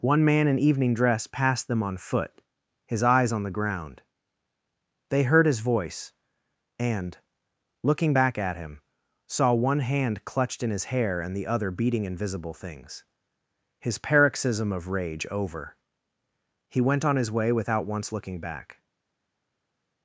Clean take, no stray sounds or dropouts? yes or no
yes